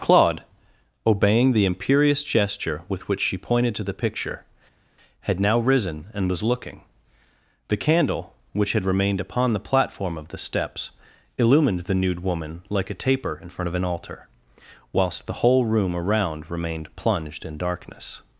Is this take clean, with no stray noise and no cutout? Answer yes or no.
yes